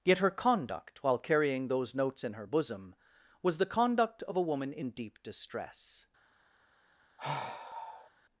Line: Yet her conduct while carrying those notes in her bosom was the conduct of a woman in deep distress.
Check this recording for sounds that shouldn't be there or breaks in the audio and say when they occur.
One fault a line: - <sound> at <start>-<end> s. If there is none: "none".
- sigh at 7.2-8.1 s